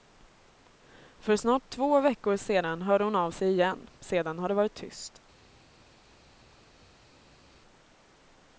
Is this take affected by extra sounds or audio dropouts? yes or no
no